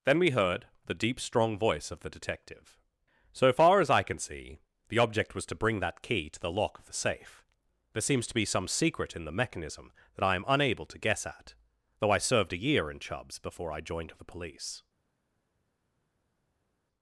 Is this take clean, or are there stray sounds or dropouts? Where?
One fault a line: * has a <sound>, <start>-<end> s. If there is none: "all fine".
all fine